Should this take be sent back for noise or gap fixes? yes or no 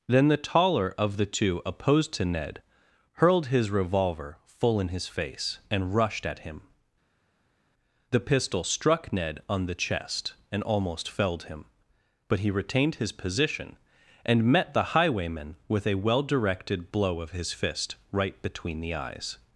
no